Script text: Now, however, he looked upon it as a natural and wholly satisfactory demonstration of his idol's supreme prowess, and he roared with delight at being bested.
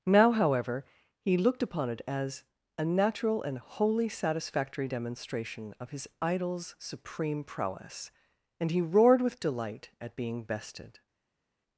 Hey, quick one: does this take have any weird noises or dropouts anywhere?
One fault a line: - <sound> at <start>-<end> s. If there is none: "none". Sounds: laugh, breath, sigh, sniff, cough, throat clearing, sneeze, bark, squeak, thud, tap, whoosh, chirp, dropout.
none